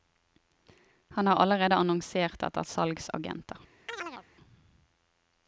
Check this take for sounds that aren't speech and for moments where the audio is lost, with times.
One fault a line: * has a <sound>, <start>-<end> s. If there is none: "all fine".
* has a chirp, 3.9-4.3 s